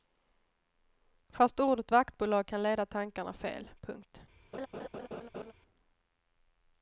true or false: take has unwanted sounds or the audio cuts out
true